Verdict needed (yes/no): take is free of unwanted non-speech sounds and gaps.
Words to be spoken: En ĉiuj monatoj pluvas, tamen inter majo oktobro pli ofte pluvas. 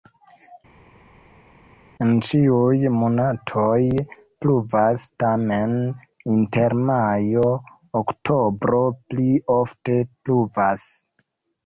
yes